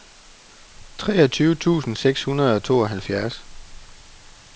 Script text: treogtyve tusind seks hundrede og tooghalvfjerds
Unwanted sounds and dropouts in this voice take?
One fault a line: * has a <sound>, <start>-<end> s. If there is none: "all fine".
all fine